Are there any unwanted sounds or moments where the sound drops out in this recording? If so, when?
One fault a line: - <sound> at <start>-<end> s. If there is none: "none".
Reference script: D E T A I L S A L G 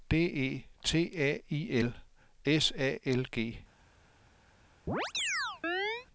- chirp at 4.9-6.1 s